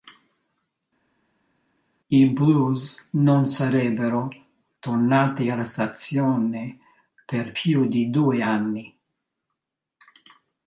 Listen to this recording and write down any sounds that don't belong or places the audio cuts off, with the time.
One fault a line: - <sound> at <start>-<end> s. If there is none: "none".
none